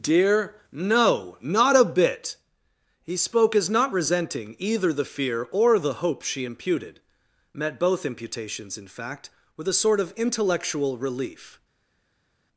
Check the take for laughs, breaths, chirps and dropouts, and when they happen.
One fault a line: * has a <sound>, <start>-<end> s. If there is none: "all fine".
all fine